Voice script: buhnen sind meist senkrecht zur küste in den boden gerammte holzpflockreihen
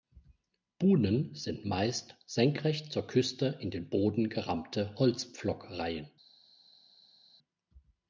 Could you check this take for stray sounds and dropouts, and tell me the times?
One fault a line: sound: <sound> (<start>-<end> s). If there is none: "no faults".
no faults